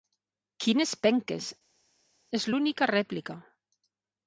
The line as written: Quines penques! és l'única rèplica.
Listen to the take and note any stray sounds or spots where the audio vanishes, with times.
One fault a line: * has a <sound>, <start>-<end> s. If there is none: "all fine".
all fine